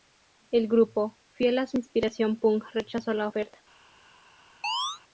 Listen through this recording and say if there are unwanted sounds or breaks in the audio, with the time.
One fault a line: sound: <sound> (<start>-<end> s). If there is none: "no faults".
sound: chirp (4.6-5.0 s)